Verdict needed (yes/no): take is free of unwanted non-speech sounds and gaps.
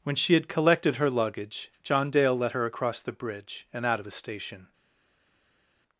yes